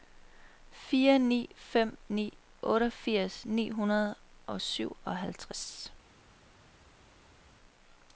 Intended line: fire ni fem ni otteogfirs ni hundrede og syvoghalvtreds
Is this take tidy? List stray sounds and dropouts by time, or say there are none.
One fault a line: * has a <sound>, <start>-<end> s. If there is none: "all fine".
all fine